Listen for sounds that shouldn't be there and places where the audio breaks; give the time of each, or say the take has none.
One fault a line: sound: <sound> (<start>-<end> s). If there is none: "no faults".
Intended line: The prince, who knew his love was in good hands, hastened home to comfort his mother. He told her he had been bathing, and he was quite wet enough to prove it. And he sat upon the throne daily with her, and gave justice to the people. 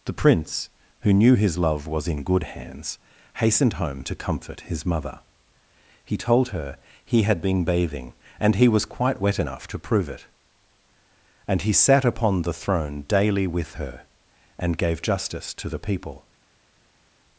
no faults